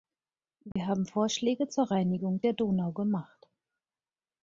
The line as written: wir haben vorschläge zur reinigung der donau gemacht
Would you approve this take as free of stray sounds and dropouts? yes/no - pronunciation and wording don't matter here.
no